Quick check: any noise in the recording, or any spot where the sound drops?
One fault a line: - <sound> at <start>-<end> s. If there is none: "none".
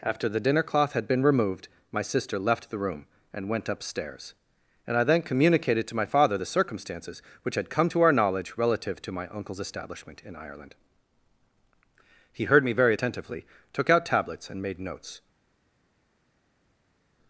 none